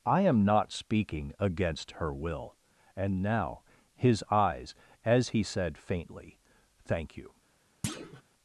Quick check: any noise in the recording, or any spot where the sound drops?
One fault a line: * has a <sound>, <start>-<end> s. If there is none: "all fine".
* has a thud, 7.8-8.2 s